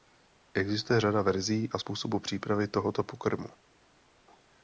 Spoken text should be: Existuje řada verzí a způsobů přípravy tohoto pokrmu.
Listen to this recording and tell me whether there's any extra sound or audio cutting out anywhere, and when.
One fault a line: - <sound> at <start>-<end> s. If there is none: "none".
none